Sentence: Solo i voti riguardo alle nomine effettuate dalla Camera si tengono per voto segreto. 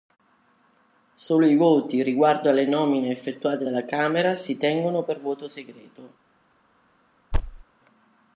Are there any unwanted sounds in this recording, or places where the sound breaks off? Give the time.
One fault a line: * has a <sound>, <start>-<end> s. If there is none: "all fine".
* has a thud, 7.3-7.6 s